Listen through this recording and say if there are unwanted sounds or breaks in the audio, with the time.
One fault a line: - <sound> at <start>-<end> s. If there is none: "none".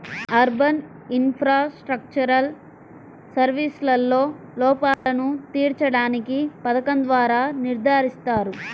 - dropout at 4.9-5.1 s